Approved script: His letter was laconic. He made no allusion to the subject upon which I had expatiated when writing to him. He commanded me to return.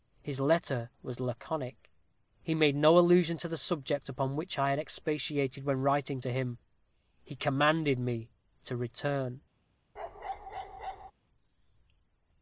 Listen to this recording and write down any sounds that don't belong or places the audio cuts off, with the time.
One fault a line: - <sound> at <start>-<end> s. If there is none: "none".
- bark at 10.0-11.1 s